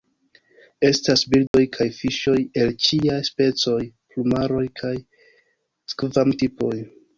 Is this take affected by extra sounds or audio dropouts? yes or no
yes